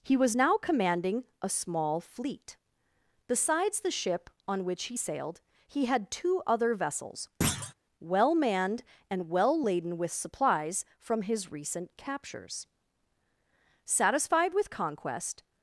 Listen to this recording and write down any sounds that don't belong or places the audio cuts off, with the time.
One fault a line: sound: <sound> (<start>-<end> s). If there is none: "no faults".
sound: thud (7.4-7.7 s)